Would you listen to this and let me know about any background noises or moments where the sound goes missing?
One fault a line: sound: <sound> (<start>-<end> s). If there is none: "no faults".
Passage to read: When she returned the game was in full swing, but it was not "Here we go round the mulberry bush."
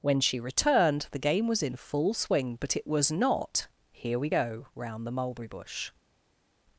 no faults